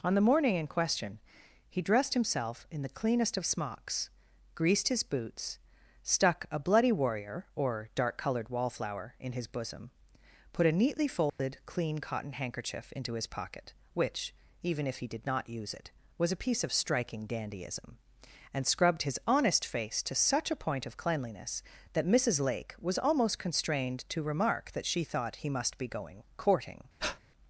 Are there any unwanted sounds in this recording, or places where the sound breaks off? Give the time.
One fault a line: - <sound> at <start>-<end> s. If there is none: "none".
- dropout at 11.3-11.4 s
- breath at 27.0-27.2 s